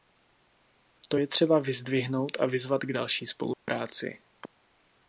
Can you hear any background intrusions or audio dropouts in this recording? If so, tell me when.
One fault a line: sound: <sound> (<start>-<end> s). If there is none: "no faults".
sound: dropout (3.5-3.7 s)